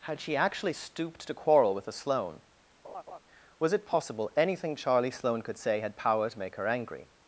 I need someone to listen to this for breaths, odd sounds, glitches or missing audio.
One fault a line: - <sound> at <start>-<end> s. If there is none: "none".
- laugh at 2.8-3.2 s